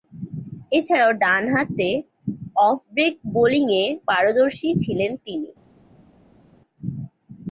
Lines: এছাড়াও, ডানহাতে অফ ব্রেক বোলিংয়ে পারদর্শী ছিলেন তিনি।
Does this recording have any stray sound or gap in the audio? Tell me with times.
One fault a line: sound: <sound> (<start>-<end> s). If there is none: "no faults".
no faults